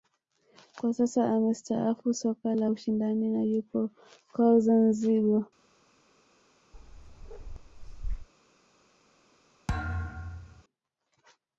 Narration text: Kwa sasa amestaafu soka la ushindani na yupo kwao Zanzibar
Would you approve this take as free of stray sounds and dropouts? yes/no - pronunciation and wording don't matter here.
no